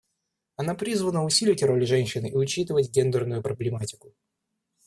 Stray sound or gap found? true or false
false